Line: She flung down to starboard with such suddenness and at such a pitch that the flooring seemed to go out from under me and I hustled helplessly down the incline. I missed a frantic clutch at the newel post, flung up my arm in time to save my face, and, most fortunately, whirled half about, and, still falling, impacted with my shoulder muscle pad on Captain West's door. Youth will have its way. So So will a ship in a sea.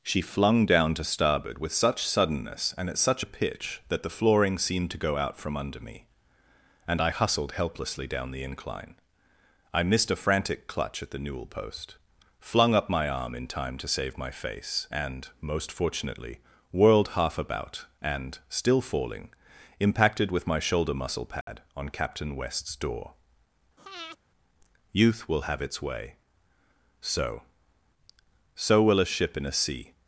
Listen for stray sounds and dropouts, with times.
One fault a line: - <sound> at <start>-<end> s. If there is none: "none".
- dropout at 21.4-21.5 s
- breath at 23.8-24.2 s